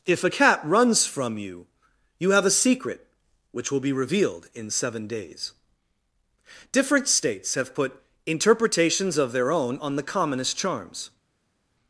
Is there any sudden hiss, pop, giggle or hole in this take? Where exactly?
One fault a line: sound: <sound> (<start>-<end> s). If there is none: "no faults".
no faults